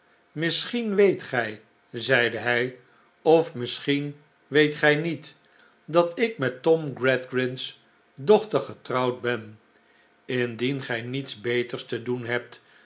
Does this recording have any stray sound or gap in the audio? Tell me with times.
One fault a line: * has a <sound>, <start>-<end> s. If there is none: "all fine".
all fine